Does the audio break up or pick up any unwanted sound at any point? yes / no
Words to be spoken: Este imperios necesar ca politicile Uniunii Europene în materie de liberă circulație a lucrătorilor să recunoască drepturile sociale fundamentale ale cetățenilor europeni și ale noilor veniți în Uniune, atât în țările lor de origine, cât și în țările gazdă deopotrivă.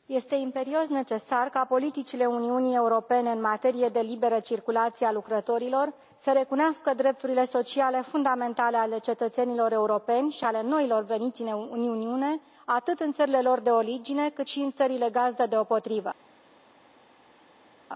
no